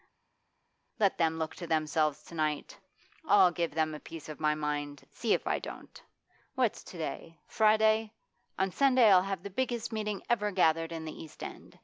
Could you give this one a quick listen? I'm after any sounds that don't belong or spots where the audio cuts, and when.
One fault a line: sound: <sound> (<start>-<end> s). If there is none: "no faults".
no faults